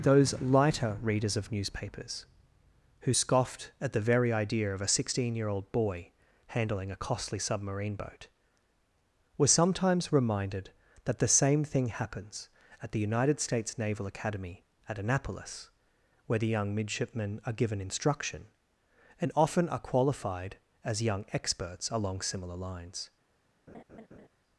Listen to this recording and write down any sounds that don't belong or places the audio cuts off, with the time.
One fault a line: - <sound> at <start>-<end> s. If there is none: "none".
- laugh at 23.7-24.3 s